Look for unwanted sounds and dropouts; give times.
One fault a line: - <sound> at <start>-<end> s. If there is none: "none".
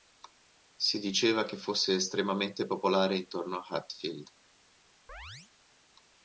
- chirp at 5.1-5.5 s